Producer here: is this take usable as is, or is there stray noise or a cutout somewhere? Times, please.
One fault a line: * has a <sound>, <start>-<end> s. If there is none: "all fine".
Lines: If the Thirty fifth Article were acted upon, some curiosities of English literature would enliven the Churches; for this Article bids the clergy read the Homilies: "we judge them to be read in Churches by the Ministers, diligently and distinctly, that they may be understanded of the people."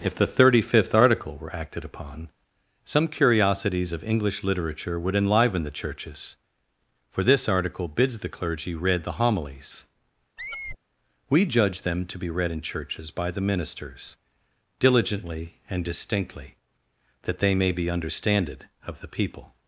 * has a squeak, 10.4-10.8 s